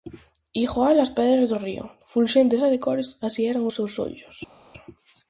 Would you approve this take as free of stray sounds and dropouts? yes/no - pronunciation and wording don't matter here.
yes